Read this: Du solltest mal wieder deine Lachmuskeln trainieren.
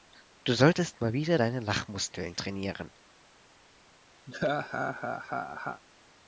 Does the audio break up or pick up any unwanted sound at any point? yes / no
yes